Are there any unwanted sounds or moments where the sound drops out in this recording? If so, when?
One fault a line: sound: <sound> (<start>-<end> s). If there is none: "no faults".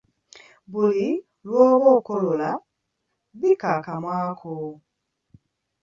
no faults